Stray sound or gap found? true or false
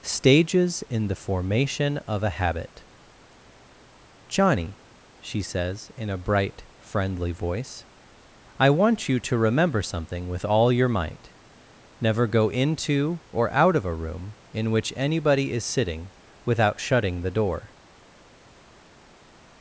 false